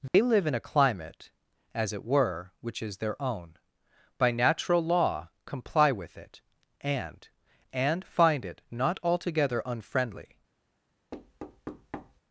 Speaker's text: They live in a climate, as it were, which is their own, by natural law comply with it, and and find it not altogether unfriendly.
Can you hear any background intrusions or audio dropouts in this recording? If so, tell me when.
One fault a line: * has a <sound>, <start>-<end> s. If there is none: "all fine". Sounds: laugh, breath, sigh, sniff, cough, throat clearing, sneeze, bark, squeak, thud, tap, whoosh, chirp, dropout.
* has a dropout, 0.1-0.1 s
* has a thud, 11.1-12.2 s